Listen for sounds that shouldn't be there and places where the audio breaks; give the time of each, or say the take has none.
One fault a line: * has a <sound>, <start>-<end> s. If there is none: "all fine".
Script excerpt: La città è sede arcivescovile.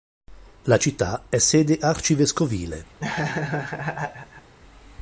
* has a laugh, 3.0-4.5 s